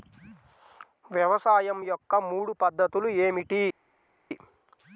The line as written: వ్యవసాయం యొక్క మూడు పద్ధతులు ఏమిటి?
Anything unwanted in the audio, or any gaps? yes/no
no